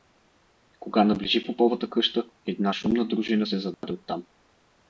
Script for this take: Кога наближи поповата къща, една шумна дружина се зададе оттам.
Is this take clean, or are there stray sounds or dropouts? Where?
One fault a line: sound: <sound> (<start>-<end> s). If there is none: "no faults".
sound: dropout (3.7-3.8 s)